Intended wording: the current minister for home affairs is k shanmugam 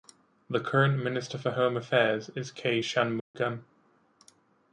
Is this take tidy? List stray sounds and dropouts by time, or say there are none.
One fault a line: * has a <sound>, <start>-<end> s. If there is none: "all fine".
* has a dropout, 3.2-3.3 s